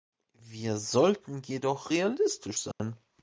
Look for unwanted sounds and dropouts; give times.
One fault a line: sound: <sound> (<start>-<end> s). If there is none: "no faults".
sound: dropout (2.7-2.8 s)